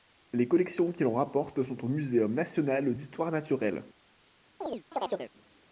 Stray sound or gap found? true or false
true